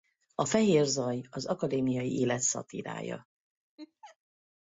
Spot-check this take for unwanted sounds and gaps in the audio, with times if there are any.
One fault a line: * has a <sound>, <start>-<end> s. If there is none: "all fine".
* has a laugh, 3.8-4.2 s